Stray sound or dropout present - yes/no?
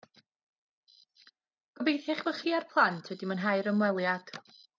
no